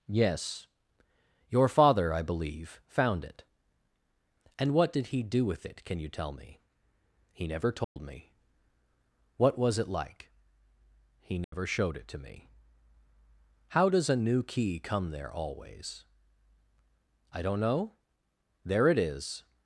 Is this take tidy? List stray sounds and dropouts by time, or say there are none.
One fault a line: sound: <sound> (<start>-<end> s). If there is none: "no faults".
sound: dropout (7.8-8.0 s)
sound: dropout (11.4-11.5 s)